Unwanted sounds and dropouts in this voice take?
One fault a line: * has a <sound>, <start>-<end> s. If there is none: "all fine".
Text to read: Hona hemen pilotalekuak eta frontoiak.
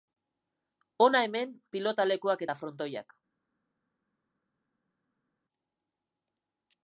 all fine